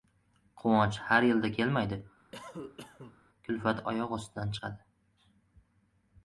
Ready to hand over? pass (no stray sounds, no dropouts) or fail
fail